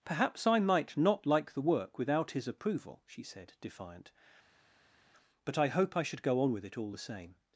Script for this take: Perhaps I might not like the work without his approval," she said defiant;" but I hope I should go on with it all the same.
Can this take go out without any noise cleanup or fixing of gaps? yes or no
yes